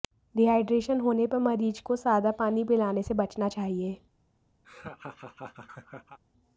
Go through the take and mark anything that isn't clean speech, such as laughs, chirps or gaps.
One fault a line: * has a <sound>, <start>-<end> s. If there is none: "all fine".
* has a laugh, 4.6-6.2 s